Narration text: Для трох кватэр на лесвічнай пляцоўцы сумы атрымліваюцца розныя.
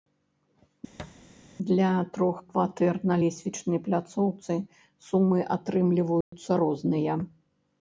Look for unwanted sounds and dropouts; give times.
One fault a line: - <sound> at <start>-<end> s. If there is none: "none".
- thud at 1.0-1.2 s
- dropout at 6.2-6.3 s